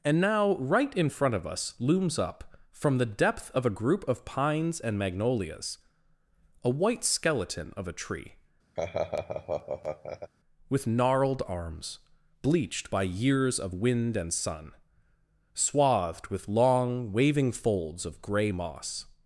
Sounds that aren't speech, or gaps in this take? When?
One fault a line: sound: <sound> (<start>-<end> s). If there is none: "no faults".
sound: laugh (8.8-10.3 s)